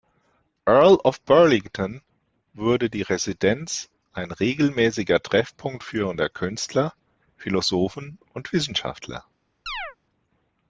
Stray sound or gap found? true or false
true